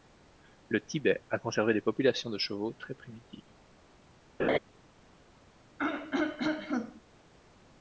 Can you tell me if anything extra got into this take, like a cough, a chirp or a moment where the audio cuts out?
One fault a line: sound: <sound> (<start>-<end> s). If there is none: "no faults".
sound: laugh (4.4-4.6 s)
sound: throat clearing (5.8-7.0 s)